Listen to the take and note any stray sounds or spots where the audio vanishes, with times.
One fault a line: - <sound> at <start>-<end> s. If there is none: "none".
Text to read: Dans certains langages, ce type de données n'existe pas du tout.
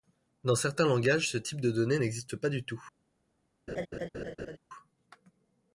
- laugh at 3.7-4.6 s